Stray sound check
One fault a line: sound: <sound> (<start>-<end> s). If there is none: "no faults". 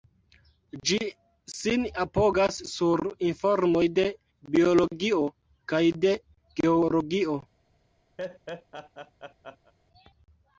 sound: laugh (8.2-9.7 s)